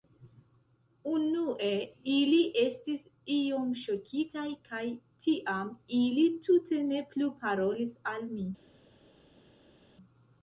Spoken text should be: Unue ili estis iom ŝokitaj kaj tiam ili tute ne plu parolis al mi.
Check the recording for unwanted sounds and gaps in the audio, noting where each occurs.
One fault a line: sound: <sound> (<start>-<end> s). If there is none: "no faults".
no faults